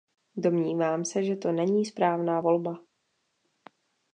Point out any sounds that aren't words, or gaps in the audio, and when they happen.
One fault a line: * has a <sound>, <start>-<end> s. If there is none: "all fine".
all fine